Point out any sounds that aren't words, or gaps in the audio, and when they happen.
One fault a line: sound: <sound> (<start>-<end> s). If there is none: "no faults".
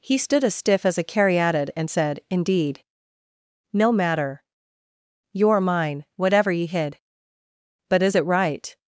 no faults